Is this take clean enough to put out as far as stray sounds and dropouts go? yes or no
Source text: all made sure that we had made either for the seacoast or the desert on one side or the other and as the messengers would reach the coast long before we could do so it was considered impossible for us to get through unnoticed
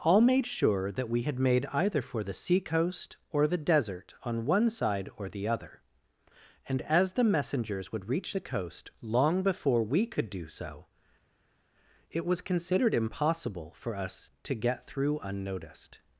yes